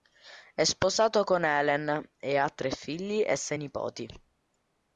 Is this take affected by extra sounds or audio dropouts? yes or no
no